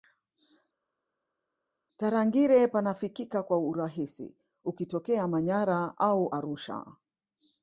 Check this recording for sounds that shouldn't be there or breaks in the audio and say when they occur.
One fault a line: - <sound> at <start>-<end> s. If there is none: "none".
none